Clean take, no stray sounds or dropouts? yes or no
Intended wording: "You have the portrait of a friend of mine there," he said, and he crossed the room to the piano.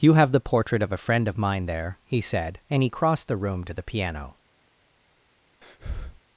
no